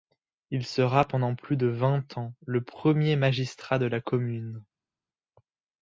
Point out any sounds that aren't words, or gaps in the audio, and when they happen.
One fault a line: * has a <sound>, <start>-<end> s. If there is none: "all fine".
all fine